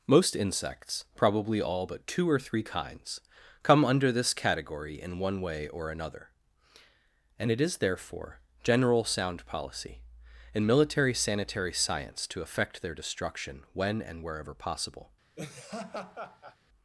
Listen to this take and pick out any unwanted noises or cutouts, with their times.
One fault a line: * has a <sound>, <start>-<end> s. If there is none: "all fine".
* has a laugh, 15.4-16.6 s